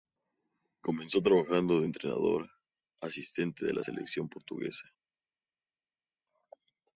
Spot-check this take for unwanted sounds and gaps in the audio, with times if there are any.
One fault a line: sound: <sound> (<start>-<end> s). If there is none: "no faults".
no faults